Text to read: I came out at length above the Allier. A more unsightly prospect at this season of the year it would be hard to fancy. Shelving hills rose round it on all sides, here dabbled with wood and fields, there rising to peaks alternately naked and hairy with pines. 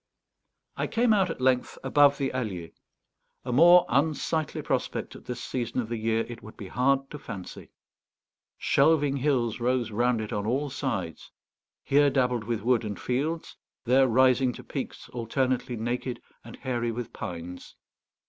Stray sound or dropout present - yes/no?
no